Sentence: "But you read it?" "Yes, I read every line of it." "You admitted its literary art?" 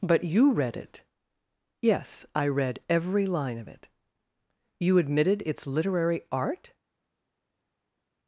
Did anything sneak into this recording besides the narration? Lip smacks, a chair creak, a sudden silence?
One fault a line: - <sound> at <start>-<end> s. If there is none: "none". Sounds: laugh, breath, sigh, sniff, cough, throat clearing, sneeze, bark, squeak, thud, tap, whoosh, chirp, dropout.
none